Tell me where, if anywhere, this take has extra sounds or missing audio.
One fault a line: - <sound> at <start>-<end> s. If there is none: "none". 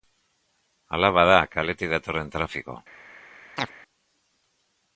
- chirp at 3.6-3.7 s